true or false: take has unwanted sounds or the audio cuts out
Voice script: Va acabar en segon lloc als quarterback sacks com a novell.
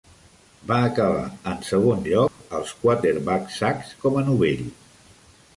true